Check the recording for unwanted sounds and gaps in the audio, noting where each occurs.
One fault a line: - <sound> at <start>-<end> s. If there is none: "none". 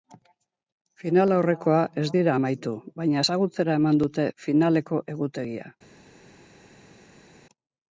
none